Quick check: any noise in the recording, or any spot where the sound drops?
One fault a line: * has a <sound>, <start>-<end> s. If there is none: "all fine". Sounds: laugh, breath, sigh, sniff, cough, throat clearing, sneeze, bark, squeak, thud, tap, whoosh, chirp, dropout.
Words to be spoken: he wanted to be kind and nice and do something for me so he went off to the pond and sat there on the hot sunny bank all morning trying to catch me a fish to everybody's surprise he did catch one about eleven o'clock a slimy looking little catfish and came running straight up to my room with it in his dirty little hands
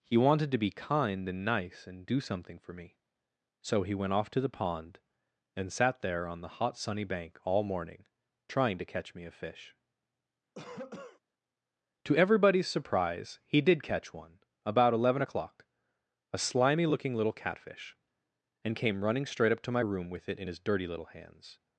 * has a cough, 10.6-11.2 s